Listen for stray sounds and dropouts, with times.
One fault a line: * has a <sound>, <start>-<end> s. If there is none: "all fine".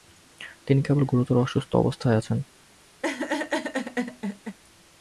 * has a laugh, 3.0-4.6 s